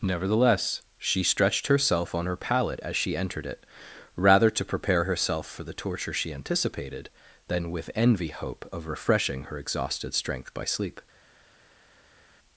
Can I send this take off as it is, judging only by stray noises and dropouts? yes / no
yes